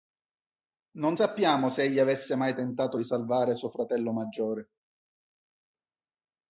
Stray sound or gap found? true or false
false